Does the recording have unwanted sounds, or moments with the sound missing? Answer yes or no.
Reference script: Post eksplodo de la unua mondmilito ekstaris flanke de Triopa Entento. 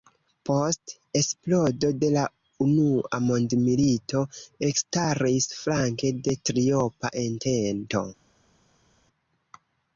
no